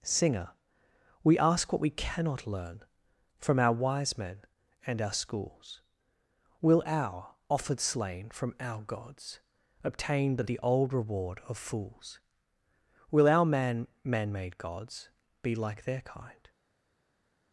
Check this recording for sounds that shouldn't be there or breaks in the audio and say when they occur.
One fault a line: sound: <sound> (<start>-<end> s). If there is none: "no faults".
no faults